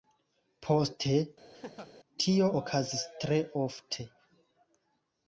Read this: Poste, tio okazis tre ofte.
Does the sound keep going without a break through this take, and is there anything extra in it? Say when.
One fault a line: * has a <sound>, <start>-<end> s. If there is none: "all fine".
* has a laugh, 1.5-1.9 s